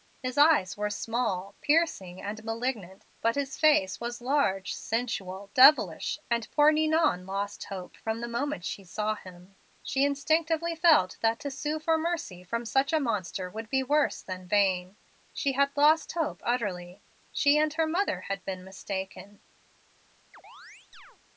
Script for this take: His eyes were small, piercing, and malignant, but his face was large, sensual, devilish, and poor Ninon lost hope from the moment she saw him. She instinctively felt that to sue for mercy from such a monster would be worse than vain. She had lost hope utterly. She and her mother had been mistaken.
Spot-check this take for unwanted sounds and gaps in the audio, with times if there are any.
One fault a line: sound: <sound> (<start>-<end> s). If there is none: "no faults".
sound: chirp (20.3-21.2 s)